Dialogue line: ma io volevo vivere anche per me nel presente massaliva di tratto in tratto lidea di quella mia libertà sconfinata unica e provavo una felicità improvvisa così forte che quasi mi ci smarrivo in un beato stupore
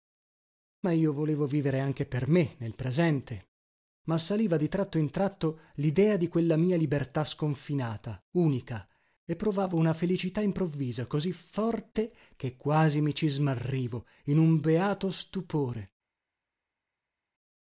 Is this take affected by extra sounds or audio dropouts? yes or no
no